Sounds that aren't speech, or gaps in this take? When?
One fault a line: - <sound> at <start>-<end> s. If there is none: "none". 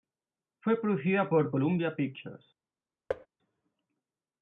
- thud at 3.1-3.3 s